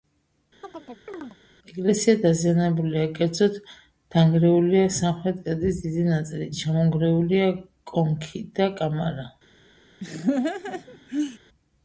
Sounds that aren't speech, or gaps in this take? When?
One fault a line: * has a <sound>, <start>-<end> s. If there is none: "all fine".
* has a chirp, 0.6-1.4 s
* has a laugh, 10.0-11.4 s